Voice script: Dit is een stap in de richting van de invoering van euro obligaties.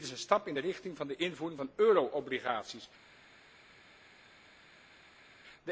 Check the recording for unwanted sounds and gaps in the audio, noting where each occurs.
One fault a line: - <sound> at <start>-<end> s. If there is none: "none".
none